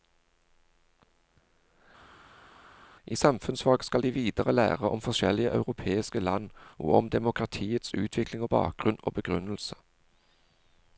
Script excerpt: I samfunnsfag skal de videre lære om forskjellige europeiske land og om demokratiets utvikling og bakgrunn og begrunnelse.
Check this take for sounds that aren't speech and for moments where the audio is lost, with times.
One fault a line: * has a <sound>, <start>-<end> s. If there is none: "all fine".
all fine